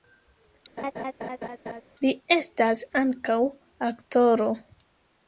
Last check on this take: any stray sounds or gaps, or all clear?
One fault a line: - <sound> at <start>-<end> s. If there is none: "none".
- laugh at 0.8-1.8 s